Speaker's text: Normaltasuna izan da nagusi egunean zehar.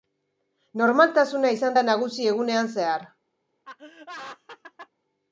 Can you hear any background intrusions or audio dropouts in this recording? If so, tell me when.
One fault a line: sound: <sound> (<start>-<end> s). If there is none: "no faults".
sound: laugh (3.6-4.9 s)